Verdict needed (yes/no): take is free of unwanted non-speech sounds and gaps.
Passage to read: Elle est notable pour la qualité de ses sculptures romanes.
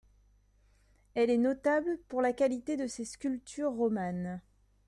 yes